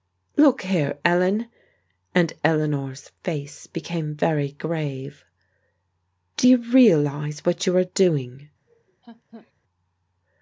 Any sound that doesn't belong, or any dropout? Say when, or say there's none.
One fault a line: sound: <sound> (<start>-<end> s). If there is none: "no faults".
sound: laugh (8.7-9.5 s)